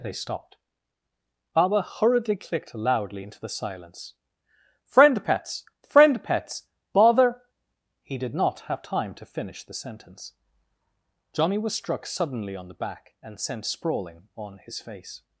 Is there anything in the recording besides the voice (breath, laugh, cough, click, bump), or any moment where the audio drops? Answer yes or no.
no